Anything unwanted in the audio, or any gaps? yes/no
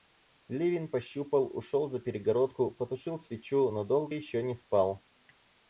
no